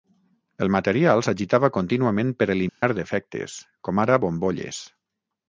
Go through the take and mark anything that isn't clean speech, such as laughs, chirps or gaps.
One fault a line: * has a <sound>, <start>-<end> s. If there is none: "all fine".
* has a dropout, 2.7-2.8 s